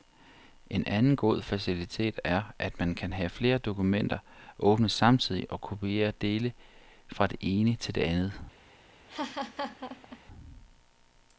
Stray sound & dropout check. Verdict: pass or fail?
fail